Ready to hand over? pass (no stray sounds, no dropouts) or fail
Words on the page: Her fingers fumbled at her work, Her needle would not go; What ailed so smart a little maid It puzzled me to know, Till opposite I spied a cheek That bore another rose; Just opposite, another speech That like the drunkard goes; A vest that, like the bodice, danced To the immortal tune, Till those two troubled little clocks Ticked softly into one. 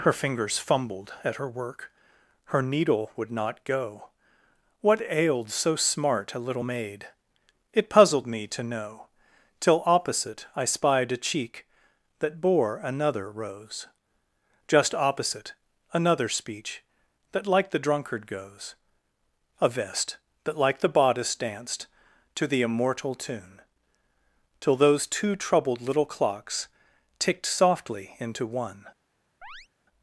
fail